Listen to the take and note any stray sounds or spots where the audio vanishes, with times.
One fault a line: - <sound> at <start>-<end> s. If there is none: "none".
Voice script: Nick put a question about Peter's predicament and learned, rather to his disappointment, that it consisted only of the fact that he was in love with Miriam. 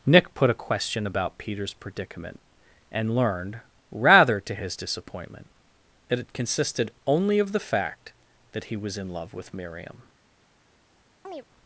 - chirp at 11.2-11.5 s